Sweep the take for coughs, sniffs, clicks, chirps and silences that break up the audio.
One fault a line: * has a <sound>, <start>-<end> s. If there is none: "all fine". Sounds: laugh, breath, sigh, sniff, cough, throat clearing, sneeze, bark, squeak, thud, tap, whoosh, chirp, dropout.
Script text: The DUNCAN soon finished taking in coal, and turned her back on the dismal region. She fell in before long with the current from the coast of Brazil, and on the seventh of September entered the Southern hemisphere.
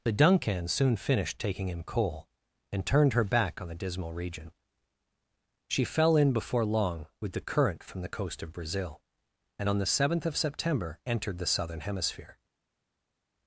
all fine